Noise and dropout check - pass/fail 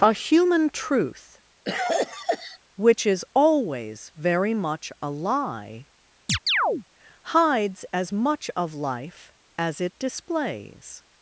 fail